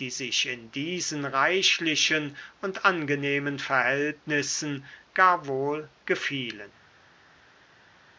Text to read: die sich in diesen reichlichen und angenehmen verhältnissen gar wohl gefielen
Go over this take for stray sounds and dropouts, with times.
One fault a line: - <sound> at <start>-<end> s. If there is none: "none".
none